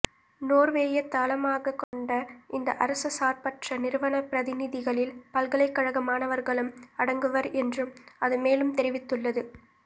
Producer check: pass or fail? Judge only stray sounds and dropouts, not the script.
fail